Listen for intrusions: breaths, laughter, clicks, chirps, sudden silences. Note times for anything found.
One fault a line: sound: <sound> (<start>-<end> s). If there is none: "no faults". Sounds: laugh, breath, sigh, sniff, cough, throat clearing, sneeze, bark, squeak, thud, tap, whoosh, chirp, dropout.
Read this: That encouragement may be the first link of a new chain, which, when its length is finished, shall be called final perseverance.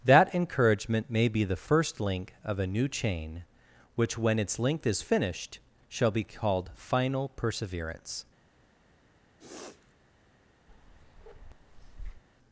sound: sniff (9.4-9.9 s)
sound: bark (10.7-12.2 s)